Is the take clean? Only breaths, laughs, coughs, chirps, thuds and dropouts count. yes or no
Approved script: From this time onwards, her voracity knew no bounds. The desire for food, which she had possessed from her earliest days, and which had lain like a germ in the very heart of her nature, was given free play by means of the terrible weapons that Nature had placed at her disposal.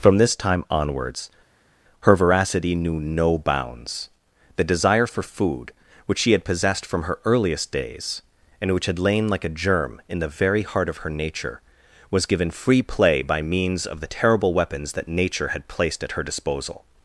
yes